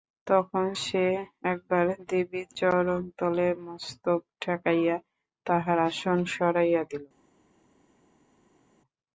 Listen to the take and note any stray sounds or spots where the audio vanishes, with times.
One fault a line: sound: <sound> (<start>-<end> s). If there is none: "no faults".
no faults